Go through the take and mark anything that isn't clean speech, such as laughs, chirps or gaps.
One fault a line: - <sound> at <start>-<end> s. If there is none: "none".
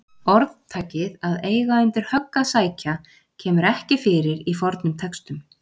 none